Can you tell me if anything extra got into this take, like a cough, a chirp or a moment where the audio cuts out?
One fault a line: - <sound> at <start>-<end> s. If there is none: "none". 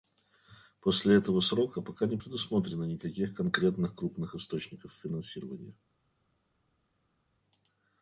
none